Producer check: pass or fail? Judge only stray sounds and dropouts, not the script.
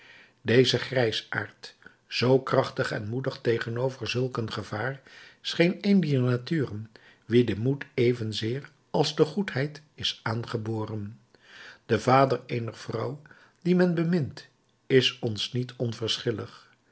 pass